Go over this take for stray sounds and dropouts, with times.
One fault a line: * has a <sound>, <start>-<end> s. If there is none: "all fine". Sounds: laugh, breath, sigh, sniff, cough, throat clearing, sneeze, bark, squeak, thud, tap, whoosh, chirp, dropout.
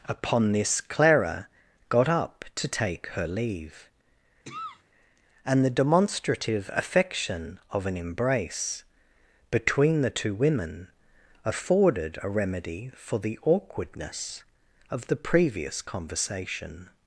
* has a cough, 4.4-4.8 s